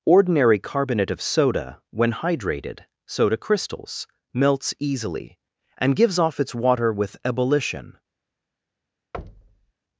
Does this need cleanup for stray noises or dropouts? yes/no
yes